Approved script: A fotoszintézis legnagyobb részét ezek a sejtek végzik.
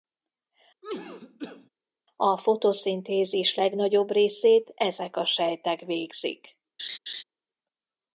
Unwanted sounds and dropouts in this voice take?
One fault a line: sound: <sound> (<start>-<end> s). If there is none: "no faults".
sound: cough (0.8-1.7 s)
sound: laugh (6.8-7.2 s)